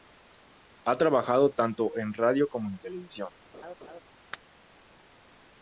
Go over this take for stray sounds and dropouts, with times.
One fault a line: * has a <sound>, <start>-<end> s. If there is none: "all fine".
* has a laugh, 3.5-4.0 s